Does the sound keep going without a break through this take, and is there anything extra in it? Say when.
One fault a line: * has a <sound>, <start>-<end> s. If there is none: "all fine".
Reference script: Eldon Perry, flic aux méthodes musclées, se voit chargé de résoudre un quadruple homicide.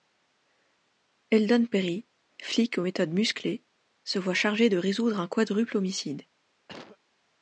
* has a cough, 6.7-7.0 s